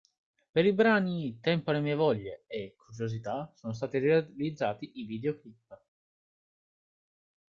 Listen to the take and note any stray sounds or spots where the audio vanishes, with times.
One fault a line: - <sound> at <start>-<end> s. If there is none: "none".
none